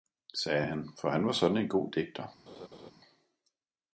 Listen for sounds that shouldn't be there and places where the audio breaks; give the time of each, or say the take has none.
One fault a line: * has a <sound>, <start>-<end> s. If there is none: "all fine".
* has a laugh, 2.5-2.9 s